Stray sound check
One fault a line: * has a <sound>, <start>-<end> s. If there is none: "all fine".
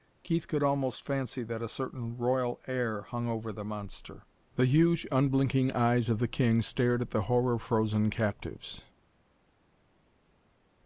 all fine